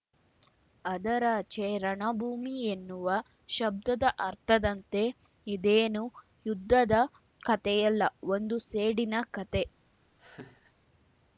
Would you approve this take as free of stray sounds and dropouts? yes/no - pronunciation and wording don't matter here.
no